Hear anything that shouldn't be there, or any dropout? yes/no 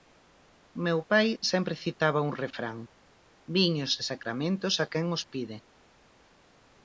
no